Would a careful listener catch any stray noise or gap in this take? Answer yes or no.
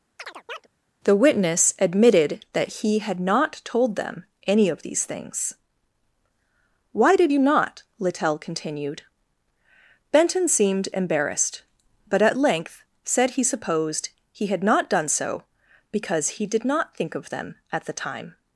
yes